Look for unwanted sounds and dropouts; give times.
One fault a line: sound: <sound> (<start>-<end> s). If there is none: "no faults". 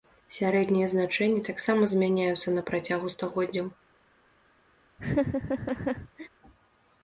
sound: laugh (5.0-6.3 s)